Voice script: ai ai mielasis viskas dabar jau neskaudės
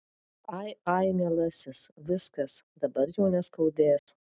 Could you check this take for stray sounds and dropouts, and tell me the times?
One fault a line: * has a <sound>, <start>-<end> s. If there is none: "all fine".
* has a dropout, 4.0-4.1 s